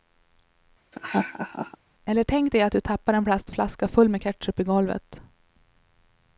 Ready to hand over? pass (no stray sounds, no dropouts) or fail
fail